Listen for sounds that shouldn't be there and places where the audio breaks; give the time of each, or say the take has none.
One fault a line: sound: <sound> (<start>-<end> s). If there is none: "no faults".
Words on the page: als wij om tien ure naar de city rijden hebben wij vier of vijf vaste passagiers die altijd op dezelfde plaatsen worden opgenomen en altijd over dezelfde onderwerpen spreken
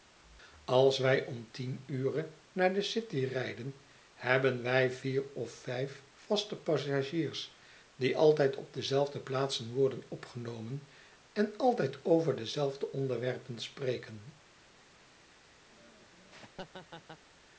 sound: laugh (15.7-17.2 s)